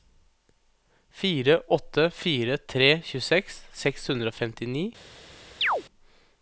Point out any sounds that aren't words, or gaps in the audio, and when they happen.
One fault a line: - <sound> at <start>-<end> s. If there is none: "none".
- chirp at 5.6-5.8 s